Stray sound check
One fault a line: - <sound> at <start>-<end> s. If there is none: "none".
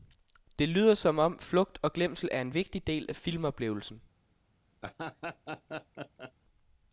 - laugh at 4.8-6.3 s